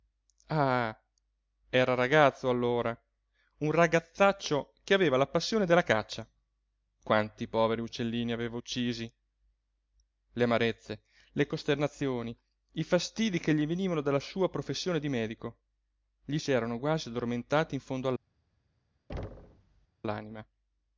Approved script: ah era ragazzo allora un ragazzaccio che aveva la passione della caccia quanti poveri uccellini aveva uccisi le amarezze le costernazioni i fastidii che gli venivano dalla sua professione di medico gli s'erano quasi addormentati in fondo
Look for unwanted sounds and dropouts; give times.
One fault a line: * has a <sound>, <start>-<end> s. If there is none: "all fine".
* has a thud, 19.1-19.9 s